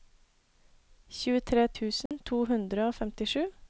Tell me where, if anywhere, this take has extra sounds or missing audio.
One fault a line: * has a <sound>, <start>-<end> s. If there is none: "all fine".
* has a dropout, 2.1-2.1 s